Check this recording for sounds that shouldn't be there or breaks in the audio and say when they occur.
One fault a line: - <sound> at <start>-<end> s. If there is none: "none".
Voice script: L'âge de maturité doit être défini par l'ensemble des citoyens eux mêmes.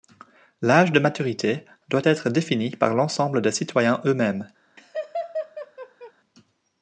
- laugh at 4.8-6.1 s